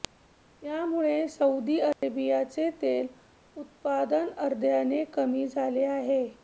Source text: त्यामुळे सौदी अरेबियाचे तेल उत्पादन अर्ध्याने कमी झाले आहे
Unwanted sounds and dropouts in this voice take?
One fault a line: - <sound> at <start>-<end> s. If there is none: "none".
- dropout at 1.9-2.0 s